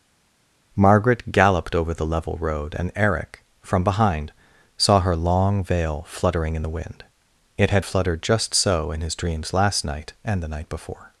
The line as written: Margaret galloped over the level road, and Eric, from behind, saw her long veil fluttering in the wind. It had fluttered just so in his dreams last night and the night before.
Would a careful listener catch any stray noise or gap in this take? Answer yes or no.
no